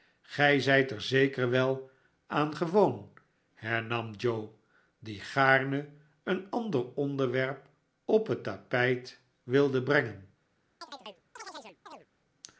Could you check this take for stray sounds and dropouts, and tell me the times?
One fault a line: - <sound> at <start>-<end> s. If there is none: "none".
- chirp at 10.8-12.1 s